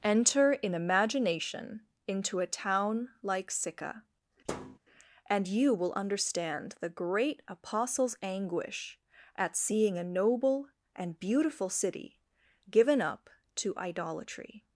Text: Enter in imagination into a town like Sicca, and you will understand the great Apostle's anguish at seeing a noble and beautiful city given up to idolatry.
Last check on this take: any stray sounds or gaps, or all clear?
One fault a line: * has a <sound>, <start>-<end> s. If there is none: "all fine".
* has a thud, 4.5-4.8 s